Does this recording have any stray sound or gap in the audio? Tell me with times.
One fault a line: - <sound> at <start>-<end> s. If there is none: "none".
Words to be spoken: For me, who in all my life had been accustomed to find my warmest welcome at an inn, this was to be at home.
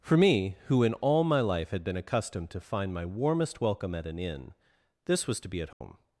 - dropout at 5.7-5.8 s